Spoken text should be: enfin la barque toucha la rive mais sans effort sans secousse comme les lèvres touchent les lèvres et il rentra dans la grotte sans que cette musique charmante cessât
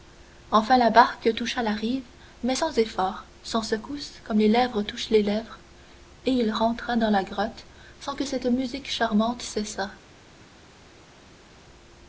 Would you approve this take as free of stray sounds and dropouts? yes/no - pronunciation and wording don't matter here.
yes